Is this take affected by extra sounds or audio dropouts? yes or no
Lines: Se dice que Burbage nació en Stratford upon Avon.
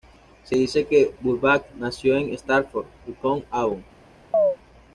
yes